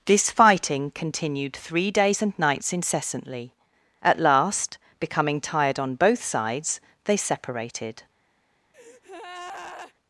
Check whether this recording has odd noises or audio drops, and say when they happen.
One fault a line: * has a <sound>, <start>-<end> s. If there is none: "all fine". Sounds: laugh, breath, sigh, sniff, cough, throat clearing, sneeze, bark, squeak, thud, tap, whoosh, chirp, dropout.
* has a breath, 8.7-9.9 s